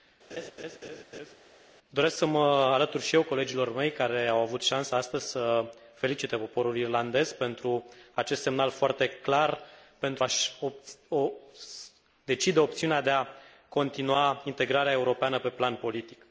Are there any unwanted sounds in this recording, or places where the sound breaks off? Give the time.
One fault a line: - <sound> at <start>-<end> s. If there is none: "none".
- laugh at 0.3-1.4 s